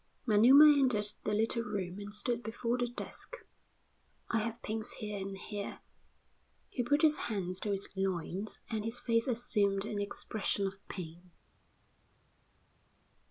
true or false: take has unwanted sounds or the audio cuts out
false